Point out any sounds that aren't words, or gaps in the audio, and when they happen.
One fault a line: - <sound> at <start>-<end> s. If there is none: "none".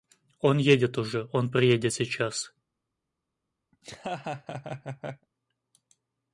- laugh at 3.7-5.3 s